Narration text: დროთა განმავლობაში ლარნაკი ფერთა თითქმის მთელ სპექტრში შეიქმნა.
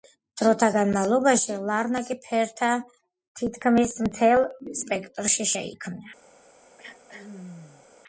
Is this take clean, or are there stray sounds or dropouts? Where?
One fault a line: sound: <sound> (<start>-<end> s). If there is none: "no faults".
sound: throat clearing (6.8-7.9 s)